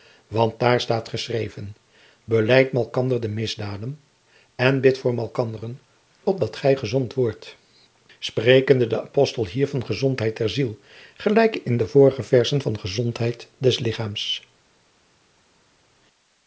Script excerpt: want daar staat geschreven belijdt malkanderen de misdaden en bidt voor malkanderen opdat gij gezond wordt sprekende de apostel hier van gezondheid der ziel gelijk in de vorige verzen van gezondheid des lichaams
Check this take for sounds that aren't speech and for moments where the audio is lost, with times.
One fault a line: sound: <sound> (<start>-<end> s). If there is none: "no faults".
no faults